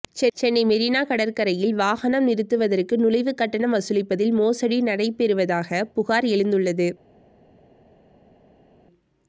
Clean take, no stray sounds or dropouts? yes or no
yes